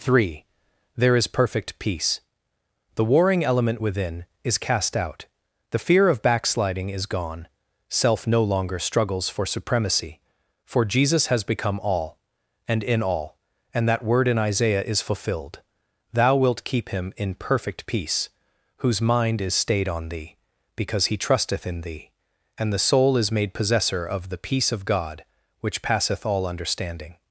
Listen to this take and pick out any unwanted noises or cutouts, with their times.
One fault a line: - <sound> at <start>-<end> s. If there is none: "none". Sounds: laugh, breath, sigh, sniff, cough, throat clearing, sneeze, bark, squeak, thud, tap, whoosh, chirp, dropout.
none